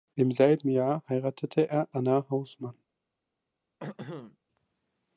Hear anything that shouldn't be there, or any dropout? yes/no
yes